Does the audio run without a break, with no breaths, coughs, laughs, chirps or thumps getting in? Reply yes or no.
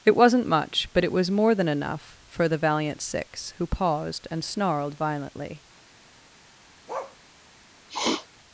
no